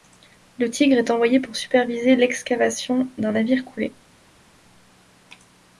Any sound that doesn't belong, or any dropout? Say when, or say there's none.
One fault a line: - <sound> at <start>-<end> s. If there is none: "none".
none